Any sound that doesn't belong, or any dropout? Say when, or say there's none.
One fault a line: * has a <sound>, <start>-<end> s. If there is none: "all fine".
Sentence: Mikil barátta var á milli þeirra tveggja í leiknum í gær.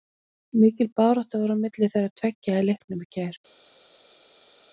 all fine